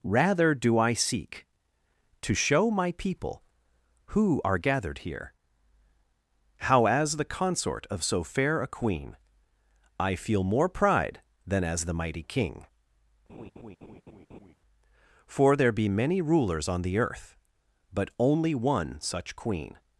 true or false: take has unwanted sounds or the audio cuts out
true